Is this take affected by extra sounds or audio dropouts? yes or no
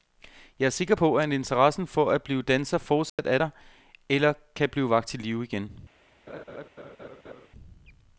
yes